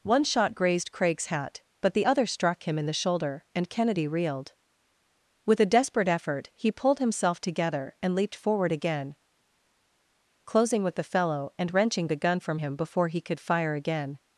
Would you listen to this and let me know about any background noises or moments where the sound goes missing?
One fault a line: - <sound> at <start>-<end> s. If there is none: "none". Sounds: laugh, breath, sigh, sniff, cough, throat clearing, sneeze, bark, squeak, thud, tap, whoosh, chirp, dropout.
none